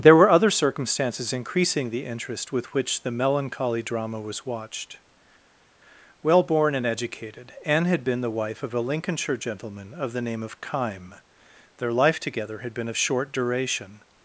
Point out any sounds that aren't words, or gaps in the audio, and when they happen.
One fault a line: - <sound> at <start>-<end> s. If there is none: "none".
none